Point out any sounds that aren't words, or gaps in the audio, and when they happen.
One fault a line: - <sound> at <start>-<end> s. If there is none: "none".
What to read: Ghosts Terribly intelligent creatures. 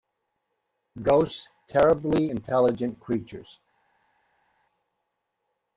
none